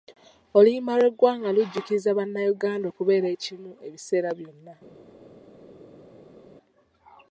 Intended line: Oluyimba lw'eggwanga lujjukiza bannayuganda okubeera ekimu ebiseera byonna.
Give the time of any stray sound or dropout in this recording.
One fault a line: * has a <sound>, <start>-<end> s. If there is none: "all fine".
all fine